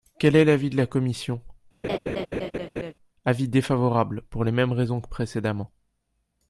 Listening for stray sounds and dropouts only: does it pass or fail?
fail